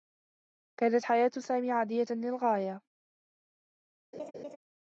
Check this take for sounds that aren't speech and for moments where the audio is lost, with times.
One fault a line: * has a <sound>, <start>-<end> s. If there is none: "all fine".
* has a laugh, 4.1-4.6 s